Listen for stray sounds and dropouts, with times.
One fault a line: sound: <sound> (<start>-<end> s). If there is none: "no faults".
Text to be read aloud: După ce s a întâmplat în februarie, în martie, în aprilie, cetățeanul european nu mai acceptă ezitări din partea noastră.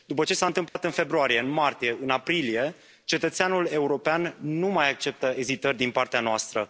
sound: dropout (0.7-0.8 s)